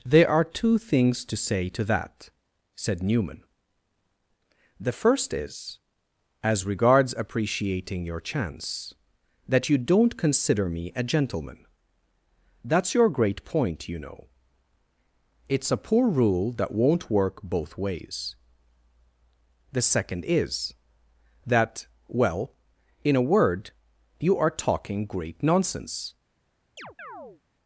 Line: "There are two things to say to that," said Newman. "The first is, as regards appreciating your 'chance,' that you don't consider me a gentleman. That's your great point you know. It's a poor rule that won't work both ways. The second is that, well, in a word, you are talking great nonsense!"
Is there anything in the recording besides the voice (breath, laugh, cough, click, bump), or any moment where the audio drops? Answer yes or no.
yes